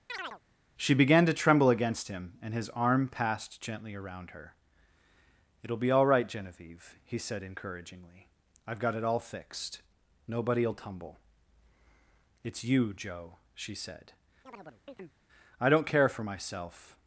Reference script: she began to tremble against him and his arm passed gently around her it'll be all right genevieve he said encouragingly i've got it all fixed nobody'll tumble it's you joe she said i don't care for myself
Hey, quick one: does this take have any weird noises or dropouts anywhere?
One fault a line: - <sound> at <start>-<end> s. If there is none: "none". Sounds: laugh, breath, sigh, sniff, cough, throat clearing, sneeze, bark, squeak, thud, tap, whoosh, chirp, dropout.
- chirp at 0.1-0.4 s
- chirp at 14.4-15.2 s